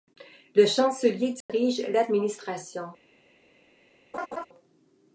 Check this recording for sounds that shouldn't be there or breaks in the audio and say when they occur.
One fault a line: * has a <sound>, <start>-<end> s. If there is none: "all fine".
* has a dropout, 1.4-1.5 s
* has a laugh, 4.1-4.5 s